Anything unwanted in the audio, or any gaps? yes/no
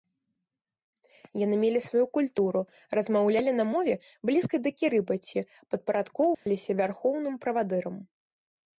yes